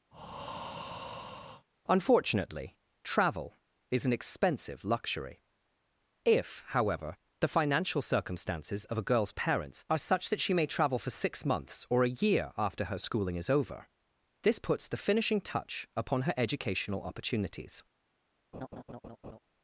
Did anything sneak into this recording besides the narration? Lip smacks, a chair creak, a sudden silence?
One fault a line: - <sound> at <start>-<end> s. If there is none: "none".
- breath at 0.1-1.7 s
- laugh at 18.5-19.4 s